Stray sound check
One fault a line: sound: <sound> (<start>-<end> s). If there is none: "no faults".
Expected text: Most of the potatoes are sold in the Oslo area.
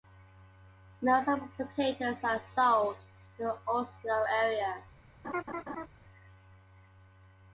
sound: laugh (5.2-5.9 s)